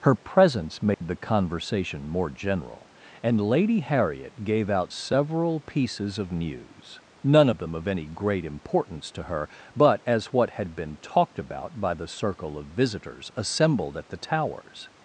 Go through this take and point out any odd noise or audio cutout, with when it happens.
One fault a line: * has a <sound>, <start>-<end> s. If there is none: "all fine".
* has a dropout, 0.9-1.0 s